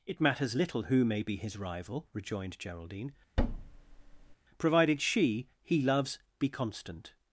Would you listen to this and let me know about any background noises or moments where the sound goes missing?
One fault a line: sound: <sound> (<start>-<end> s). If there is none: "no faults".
sound: thud (3.4-4.4 s)